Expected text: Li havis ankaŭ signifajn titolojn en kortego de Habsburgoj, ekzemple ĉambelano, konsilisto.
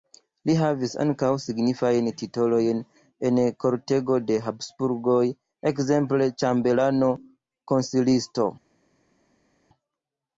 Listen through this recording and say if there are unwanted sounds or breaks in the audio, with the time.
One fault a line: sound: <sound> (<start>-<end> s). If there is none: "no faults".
no faults